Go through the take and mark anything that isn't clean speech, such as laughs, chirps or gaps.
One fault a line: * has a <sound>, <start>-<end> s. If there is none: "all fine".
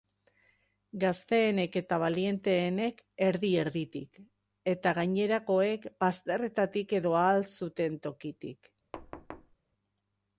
* has a thud, 8.9-9.6 s